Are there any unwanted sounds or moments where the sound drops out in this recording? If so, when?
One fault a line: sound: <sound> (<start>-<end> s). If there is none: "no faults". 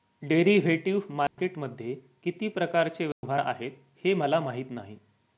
sound: dropout (1.3-1.4 s)
sound: dropout (3.1-3.2 s)